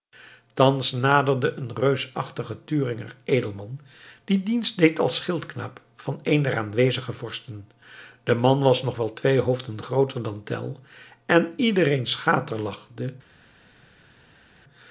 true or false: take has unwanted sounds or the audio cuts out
false